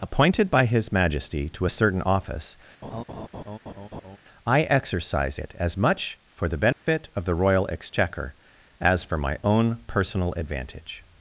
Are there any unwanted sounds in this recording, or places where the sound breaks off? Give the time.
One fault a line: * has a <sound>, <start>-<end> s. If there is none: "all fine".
* has a laugh, 2.8-4.2 s
* has a dropout, 6.7-6.9 s